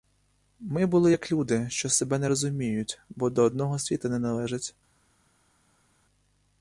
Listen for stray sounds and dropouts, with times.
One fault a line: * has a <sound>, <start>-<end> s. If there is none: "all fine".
all fine